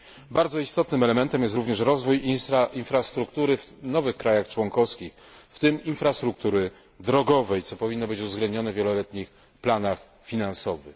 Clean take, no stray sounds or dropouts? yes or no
yes